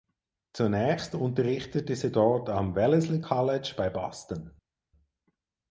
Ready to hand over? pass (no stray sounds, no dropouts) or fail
pass